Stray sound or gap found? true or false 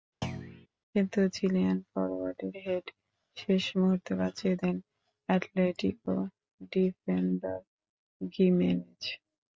true